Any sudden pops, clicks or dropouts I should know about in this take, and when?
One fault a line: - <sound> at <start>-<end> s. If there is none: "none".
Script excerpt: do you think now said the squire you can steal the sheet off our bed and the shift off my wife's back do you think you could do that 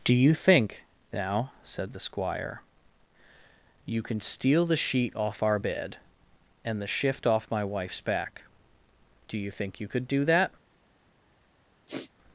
- sniff at 11.9-12.1 s